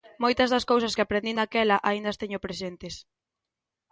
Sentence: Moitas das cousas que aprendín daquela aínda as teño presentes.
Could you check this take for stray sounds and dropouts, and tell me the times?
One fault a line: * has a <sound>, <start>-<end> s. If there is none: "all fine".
all fine